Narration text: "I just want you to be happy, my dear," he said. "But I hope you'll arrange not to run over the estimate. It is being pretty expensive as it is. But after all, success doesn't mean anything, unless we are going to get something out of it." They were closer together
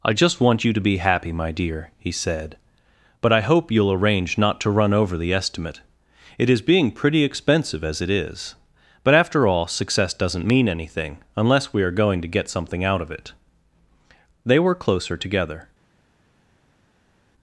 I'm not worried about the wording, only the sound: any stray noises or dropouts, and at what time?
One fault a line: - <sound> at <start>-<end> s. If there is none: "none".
none